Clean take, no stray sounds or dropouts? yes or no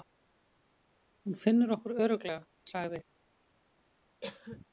no